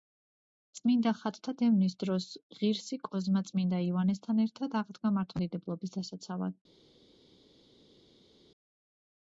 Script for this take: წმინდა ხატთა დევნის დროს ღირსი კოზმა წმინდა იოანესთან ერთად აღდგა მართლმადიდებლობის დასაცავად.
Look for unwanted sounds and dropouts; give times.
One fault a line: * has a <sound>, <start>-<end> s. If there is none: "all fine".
all fine